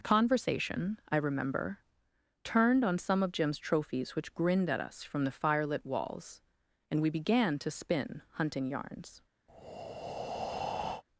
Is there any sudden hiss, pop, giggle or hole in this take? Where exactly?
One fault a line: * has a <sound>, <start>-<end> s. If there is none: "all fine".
* has a breath, 9.5-11.0 s